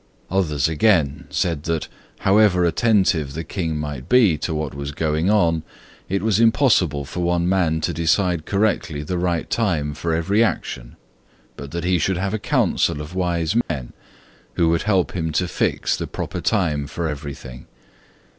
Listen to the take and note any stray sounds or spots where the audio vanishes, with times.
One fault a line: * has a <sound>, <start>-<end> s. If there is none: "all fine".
* has a dropout, 13.6-13.7 s